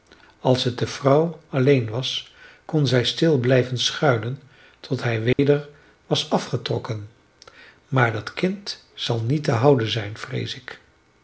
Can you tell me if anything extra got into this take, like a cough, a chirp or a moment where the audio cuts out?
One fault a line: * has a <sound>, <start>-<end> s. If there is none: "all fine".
* has a dropout, 5.3-5.4 s